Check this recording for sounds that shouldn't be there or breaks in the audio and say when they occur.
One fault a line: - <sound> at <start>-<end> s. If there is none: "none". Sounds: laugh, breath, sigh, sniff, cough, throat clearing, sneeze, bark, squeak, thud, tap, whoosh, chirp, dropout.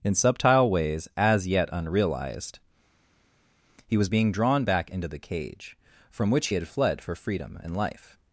none